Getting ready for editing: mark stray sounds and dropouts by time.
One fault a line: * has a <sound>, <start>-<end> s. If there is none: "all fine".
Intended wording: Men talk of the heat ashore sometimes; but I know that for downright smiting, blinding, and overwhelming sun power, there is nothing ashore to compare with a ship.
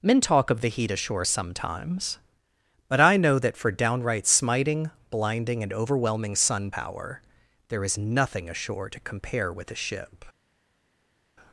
all fine